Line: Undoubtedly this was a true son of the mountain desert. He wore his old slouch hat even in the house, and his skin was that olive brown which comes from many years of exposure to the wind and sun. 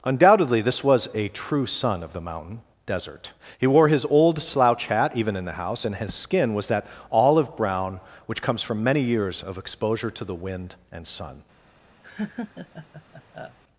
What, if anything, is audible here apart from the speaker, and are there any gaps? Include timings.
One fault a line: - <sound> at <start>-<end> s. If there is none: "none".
- laugh at 12.0-13.6 s